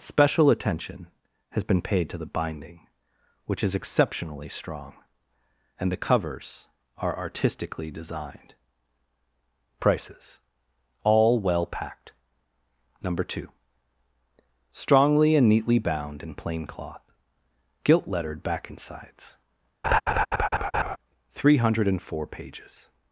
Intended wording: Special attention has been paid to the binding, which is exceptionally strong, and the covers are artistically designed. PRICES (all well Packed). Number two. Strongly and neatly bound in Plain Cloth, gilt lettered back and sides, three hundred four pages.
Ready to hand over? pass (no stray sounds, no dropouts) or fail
fail